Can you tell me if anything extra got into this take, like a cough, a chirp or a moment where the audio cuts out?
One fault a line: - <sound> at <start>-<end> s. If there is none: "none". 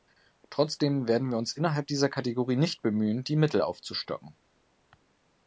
none